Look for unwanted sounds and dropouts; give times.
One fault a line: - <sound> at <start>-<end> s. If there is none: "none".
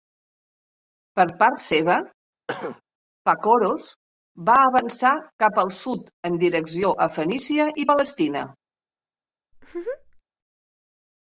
- cough at 2.5-2.8 s
- laugh at 9.5-10.2 s